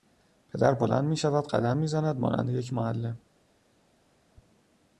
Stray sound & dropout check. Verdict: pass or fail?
pass